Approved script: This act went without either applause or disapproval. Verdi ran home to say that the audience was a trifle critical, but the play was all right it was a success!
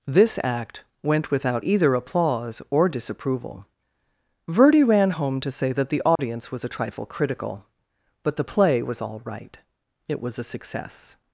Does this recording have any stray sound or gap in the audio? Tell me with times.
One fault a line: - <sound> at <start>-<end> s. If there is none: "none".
- dropout at 6.2-6.2 s